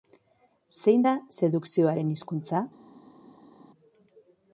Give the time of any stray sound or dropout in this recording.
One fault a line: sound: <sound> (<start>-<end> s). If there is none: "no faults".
no faults